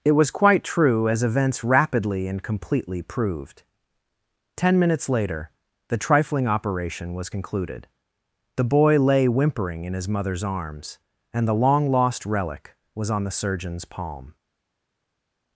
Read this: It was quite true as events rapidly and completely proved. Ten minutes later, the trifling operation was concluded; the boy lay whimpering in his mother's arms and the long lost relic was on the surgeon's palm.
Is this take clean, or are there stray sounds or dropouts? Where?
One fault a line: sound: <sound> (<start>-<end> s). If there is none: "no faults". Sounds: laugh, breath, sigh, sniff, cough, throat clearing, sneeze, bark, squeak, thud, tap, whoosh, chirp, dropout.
no faults